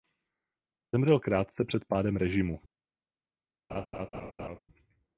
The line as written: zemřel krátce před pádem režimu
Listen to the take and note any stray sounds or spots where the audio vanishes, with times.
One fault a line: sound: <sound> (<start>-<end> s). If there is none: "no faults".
sound: laugh (3.7-4.6 s)